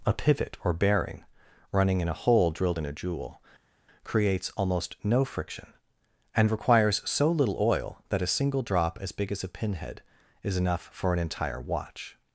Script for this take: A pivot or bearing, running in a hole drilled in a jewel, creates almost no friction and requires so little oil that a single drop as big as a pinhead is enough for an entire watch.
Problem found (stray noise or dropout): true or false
false